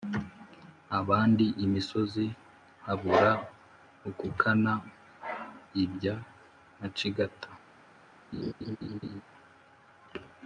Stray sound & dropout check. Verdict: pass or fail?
fail